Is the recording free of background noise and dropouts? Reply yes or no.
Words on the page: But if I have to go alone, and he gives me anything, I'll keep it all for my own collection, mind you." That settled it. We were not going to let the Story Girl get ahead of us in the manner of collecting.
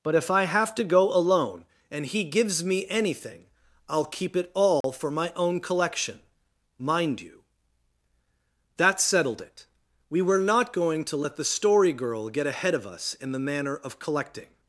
no